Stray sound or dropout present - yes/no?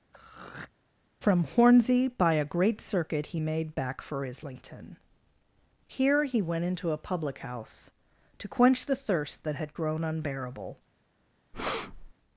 yes